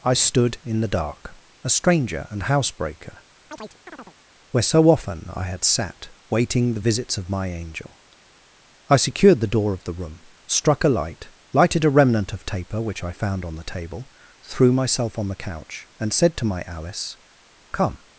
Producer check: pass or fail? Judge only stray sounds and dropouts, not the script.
fail